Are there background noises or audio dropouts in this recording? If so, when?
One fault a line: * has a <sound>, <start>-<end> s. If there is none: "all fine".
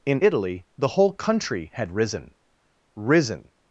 all fine